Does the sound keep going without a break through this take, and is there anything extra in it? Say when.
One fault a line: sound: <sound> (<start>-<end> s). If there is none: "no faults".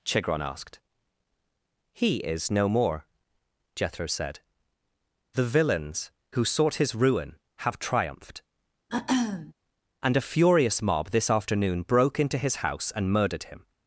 sound: throat clearing (8.9-9.5 s)